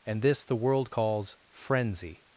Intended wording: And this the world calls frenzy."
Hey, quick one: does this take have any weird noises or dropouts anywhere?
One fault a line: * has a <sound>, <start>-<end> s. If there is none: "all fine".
all fine